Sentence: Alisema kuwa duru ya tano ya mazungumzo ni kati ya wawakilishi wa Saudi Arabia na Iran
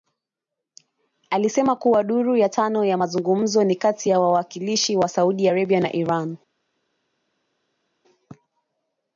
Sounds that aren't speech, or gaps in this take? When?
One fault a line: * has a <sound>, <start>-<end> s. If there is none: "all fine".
all fine